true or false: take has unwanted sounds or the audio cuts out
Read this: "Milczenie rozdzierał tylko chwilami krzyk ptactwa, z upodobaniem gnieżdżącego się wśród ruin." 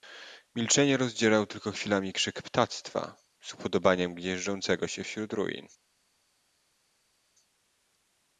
false